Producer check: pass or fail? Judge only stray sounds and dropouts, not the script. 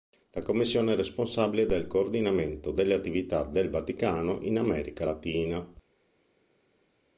pass